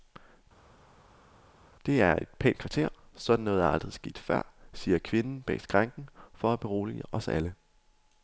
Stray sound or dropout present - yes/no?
no